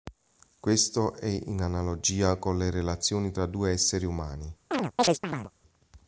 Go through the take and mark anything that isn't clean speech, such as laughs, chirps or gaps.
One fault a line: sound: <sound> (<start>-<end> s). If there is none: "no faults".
sound: chirp (4.7-5.5 s)